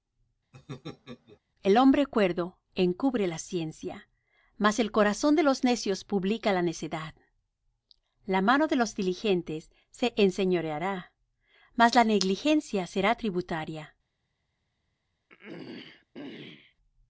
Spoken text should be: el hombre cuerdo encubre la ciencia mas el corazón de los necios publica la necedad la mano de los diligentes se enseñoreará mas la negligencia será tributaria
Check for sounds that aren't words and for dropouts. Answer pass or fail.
fail